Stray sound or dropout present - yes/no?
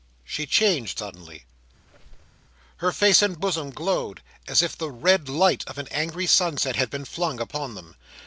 yes